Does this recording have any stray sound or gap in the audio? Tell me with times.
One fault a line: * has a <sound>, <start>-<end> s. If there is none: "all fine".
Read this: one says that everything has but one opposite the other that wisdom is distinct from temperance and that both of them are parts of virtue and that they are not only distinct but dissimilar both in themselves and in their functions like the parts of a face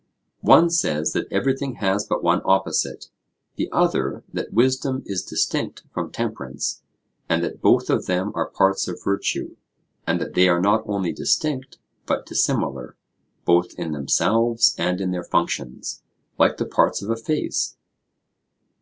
all fine